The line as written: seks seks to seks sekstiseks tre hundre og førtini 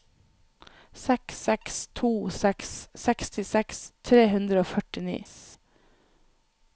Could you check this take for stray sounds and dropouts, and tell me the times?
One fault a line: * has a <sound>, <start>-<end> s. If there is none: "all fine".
all fine